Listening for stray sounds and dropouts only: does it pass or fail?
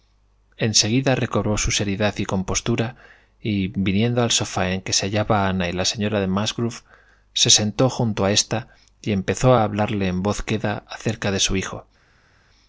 pass